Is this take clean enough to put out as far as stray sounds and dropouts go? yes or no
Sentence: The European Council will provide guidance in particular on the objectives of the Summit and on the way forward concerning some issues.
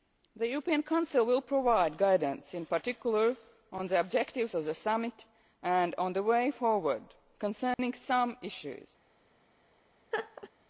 no